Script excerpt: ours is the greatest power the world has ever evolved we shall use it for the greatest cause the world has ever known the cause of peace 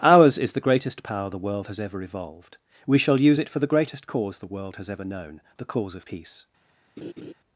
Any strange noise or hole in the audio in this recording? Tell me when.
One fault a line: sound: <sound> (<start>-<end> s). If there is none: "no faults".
sound: laugh (7.0-7.3 s)